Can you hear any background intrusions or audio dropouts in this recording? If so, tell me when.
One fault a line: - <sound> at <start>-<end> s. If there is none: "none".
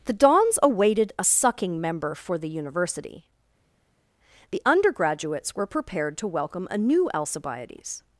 none